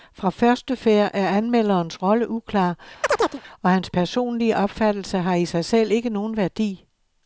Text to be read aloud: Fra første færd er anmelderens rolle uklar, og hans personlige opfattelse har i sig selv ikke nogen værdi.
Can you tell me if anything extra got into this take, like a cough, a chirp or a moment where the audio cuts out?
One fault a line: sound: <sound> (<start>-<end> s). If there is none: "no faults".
sound: chirp (3.0-3.4 s)